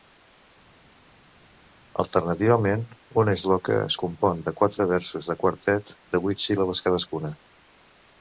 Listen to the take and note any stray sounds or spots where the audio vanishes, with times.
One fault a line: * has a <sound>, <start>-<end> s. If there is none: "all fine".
all fine